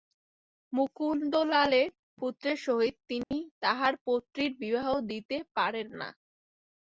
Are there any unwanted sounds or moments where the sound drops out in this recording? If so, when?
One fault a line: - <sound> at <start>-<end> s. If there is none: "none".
- dropout at 3.2-3.3 s